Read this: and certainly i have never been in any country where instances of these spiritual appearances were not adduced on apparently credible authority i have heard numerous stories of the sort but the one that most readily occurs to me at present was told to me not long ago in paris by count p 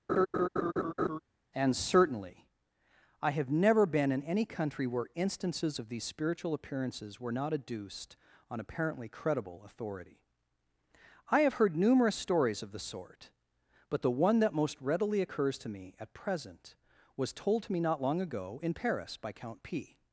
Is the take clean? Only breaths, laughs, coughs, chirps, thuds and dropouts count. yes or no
no